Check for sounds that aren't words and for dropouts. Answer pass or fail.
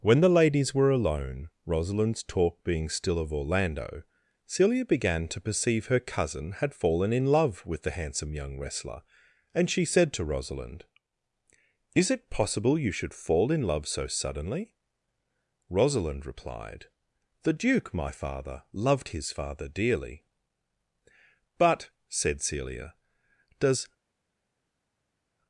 pass